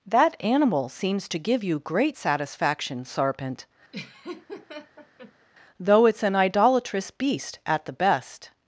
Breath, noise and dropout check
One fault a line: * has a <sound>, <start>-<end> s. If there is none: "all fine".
* has a laugh, 3.9-5.5 s